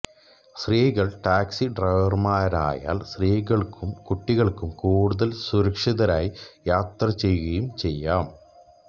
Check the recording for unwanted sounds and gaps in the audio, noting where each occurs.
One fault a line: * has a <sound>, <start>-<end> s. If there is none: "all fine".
all fine